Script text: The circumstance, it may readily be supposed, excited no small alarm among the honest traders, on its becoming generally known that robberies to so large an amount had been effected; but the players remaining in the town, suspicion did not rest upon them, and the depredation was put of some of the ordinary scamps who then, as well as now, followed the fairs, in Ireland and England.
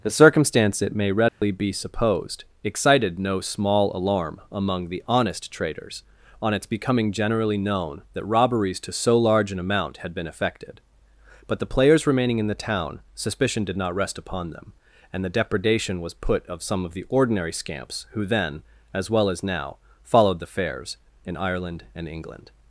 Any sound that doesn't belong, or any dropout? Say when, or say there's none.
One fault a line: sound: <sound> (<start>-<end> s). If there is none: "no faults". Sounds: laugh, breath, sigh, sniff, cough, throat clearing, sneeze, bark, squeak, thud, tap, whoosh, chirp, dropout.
sound: dropout (1.3-1.4 s)